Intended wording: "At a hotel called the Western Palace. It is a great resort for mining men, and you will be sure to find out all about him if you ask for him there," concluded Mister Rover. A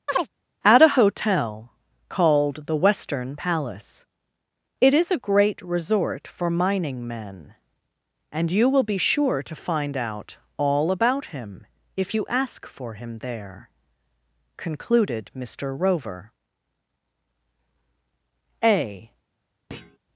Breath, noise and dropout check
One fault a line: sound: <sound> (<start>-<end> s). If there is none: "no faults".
sound: chirp (0.1-0.3 s)
sound: thud (19.7-20.0 s)